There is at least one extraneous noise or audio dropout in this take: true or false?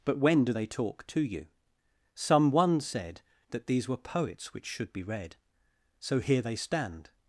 false